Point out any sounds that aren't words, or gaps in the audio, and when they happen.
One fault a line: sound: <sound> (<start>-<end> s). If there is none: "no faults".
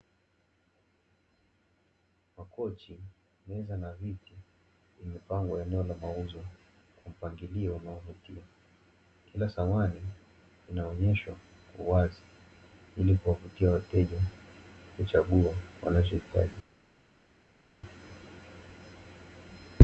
no faults